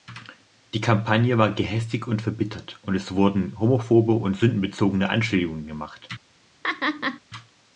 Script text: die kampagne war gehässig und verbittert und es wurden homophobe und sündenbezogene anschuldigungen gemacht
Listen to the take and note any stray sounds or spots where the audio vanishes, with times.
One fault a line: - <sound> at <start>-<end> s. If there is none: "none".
- laugh at 6.6-7.2 s